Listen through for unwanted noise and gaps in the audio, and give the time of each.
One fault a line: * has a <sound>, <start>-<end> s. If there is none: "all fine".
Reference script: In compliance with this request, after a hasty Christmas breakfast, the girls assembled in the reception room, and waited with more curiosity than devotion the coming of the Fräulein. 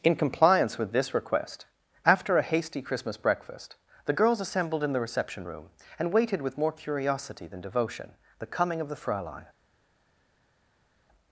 all fine